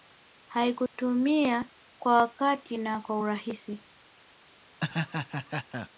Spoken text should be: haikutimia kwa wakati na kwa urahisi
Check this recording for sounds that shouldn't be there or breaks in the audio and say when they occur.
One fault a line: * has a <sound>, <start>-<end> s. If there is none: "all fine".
* has a dropout, 0.9-0.9 s
* has a laugh, 4.8-5.9 s